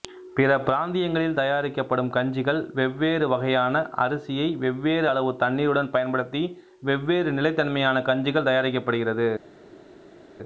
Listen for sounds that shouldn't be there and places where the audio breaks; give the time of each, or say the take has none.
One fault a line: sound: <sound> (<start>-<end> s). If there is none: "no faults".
no faults